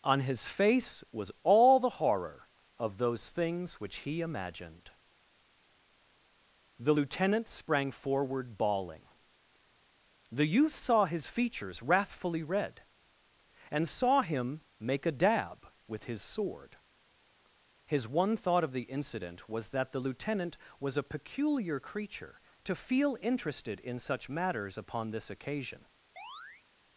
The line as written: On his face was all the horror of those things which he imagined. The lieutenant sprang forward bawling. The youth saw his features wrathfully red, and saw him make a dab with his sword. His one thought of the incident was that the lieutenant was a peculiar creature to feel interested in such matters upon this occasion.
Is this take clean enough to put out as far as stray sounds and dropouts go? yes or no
no